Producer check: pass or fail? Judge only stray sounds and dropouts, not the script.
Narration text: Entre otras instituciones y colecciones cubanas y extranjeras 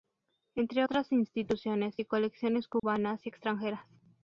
fail